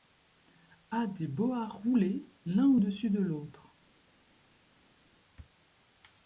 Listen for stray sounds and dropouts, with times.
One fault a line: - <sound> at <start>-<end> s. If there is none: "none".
none